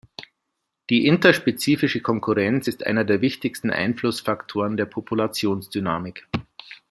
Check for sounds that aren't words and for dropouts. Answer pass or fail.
pass